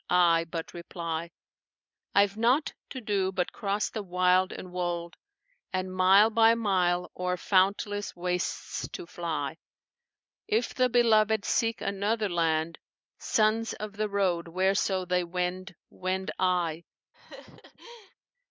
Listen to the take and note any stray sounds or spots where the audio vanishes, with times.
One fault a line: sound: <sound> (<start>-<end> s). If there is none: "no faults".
sound: laugh (17.1-18.1 s)